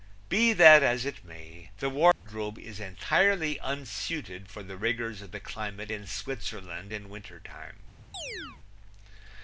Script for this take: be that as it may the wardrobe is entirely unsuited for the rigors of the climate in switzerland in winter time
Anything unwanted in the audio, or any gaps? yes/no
yes